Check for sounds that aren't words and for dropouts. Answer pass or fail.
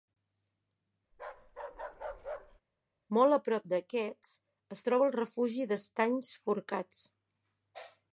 fail